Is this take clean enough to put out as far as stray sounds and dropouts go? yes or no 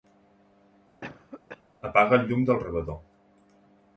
no